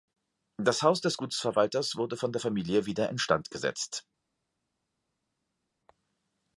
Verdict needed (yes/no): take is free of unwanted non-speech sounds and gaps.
yes